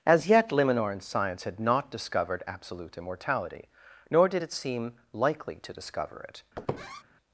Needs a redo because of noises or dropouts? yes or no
yes